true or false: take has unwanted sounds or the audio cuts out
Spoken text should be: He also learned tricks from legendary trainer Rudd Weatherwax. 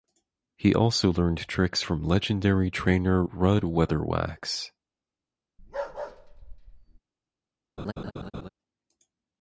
true